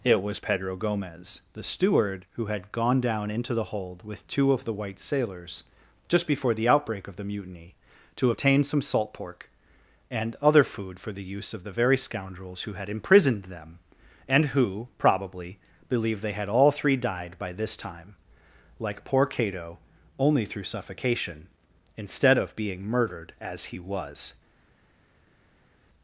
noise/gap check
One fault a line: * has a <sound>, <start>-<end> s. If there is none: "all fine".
all fine